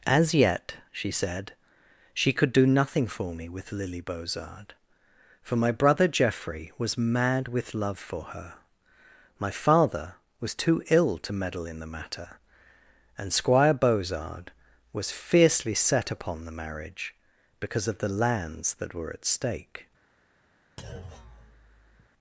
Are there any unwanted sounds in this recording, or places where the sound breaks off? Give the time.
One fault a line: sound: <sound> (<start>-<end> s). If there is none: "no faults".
sound: thud (20.8-22.1 s)